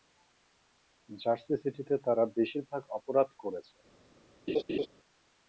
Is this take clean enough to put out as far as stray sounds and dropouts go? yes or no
no